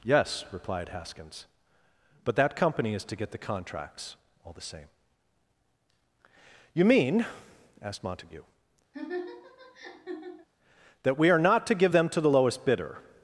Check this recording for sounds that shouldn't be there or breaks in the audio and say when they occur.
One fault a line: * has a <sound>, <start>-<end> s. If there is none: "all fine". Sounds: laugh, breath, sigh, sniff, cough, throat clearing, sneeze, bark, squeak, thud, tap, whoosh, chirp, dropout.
* has a laugh, 8.9-10.5 s